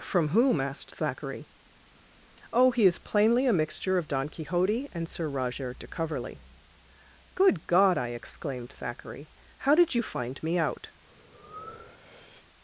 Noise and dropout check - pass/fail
fail